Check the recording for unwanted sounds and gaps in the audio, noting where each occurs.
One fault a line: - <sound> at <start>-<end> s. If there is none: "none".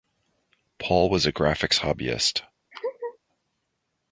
- laugh at 2.7-3.2 s